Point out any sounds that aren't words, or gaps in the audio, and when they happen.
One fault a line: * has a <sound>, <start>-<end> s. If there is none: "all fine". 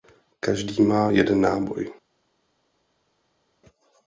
all fine